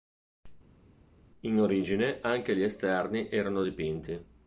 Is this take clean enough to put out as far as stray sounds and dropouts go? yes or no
yes